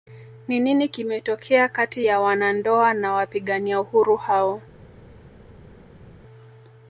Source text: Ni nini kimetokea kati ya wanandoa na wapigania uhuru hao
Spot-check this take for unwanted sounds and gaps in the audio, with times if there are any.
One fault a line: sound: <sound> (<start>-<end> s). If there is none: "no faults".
no faults